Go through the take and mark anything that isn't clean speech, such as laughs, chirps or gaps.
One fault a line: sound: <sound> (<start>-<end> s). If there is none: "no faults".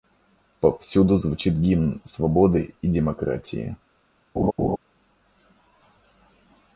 sound: laugh (4.4-4.8 s)